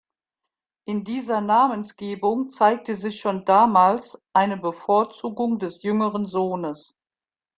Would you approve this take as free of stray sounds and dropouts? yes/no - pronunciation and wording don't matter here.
yes